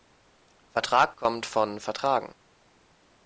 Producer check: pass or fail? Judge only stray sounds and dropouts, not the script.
pass